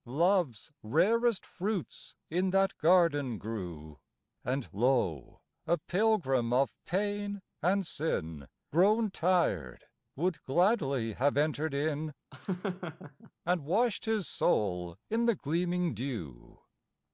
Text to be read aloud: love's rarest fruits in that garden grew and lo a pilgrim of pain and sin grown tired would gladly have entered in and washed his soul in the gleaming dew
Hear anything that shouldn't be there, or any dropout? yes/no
yes